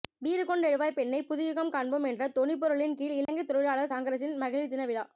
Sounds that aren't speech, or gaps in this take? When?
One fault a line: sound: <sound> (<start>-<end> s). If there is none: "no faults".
sound: dropout (3.3-3.3 s)